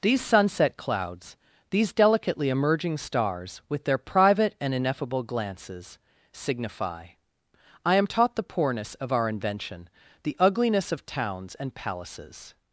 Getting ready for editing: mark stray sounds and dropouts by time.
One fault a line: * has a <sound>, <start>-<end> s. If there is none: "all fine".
all fine